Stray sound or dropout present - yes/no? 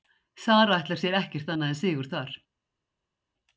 no